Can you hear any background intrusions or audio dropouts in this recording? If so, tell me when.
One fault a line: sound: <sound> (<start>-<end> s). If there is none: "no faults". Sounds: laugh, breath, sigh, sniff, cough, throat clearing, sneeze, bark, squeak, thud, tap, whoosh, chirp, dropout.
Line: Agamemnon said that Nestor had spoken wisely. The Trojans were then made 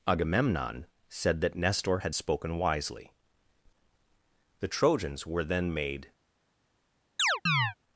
sound: chirp (7.2-7.7 s)